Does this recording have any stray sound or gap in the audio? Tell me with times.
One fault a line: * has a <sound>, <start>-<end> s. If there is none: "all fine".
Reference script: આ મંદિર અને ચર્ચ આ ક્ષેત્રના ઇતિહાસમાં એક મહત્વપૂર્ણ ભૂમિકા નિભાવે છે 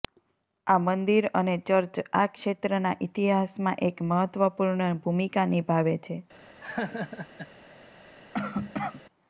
* has a laugh, 6.6-7.5 s
* has a cough, 8.3-9.0 s